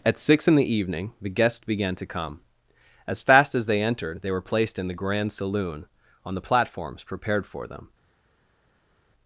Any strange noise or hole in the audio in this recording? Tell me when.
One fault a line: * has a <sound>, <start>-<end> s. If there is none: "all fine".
all fine